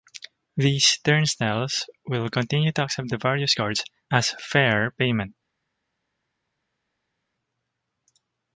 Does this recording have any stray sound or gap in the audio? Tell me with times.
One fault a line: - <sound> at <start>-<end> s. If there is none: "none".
none